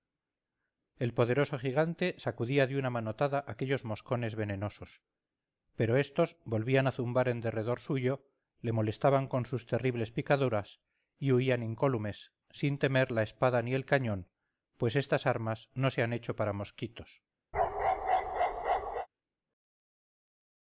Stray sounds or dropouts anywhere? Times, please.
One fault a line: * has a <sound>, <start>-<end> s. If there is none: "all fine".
* has a bark, 17.5-19.1 s